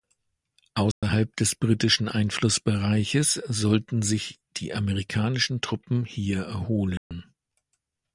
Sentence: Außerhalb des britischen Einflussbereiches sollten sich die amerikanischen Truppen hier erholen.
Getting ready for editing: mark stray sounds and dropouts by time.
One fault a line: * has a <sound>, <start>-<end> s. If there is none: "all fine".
* has a dropout, 0.9-1.0 s
* has a dropout, 7.0-7.1 s